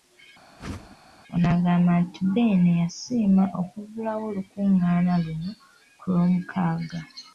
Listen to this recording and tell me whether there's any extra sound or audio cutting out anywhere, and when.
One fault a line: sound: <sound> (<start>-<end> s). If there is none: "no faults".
sound: whoosh (0.6-1.0 s)